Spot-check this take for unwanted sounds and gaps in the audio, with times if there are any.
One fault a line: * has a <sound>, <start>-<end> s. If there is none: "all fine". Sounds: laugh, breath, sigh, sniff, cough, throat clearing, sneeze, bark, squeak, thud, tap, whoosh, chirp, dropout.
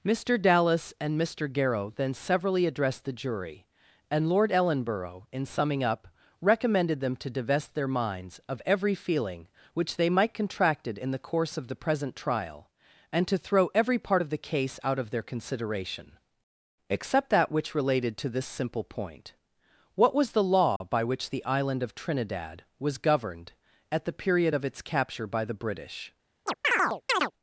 * has a dropout, 20.8-20.8 s
* has a chirp, 26.5-27.3 s